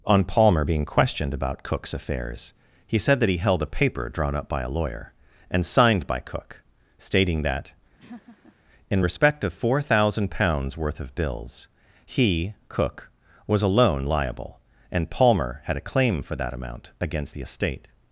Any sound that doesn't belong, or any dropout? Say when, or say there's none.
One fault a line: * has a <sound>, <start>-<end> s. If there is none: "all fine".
* has a laugh, 8.0-8.6 s